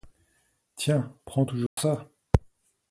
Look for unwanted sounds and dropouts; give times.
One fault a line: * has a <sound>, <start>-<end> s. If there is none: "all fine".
* has a dropout, 1.7-1.8 s